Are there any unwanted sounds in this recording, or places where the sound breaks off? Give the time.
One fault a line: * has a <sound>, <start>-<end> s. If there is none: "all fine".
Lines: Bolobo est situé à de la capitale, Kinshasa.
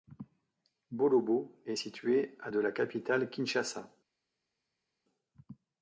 all fine